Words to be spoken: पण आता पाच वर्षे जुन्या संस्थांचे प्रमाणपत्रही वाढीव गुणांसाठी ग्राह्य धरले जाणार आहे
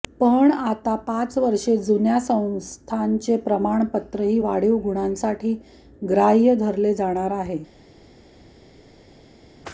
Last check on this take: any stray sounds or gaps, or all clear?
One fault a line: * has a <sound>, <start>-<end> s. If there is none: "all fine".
all fine